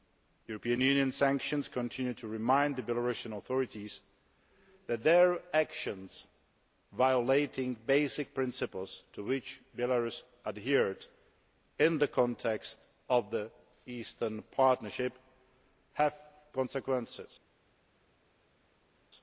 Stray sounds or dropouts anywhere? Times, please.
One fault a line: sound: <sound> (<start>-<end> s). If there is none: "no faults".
no faults